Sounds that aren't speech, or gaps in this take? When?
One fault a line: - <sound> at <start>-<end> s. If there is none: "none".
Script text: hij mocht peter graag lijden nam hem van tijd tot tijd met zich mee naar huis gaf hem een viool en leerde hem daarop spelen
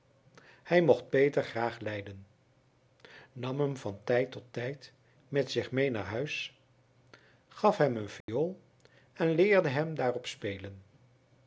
- dropout at 8.2-8.3 s